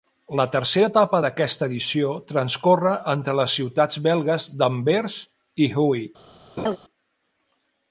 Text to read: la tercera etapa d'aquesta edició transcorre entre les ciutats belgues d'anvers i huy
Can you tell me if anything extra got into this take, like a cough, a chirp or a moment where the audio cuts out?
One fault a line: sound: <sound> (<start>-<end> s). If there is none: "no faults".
sound: laugh (6.6-6.8 s)